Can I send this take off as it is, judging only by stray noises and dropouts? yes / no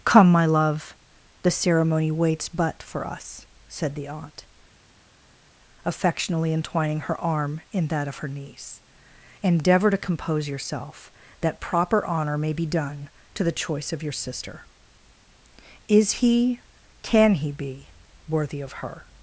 yes